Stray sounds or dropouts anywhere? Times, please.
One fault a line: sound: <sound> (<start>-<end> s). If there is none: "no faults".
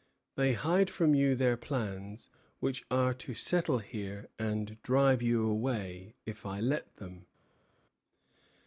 no faults